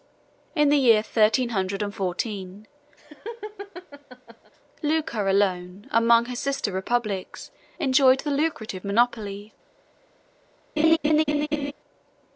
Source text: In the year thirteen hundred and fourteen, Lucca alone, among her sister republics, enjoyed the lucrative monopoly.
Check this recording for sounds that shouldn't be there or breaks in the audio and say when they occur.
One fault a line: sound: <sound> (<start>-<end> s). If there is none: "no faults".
sound: laugh (3.0-4.5 s)
sound: laugh (10.8-11.7 s)